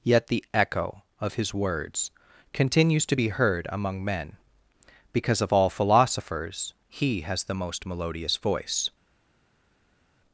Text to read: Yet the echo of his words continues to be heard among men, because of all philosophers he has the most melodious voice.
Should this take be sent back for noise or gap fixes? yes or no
no